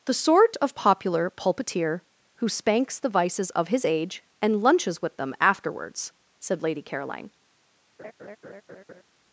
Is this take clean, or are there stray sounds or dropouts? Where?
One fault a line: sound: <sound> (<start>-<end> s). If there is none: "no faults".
sound: laugh (8.0-9.0 s)